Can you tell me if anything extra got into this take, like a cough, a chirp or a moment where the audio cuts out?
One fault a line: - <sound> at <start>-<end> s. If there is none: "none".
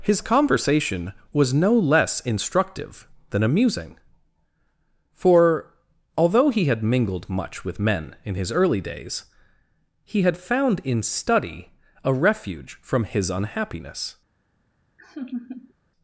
- laugh at 15.0-15.7 s